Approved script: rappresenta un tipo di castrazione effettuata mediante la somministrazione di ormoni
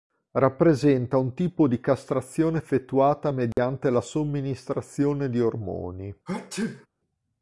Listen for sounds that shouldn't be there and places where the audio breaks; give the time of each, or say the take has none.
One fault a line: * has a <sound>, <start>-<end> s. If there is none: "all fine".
* has a dropout, 3.5-3.6 s
* has a sneeze, 6.3-6.9 s